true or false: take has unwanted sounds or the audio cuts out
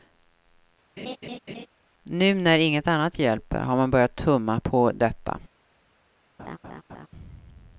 true